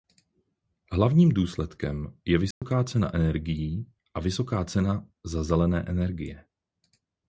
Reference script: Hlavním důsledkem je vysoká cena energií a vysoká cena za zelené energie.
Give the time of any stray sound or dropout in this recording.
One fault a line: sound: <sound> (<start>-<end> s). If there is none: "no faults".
sound: dropout (2.5-2.6 s)